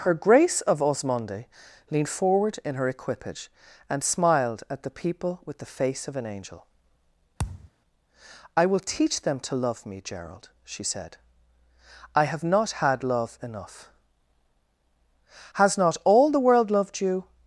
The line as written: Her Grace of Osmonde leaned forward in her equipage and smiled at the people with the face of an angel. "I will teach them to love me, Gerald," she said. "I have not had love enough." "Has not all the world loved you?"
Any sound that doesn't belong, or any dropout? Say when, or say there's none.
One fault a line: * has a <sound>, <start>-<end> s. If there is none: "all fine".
* has a thud, 7.4-7.7 s